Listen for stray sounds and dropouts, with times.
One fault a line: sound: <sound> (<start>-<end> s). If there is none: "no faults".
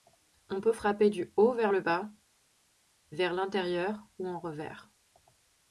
no faults